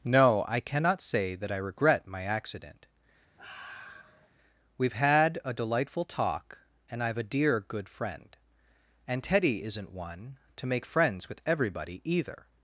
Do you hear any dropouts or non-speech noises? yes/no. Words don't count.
yes